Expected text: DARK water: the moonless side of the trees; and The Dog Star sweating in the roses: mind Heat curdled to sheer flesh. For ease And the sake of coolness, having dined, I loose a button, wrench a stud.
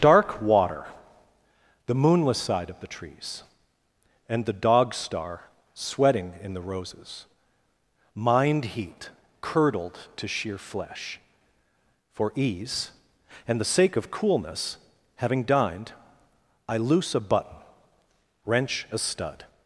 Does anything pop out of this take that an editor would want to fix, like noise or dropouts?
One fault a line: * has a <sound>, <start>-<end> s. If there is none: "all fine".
all fine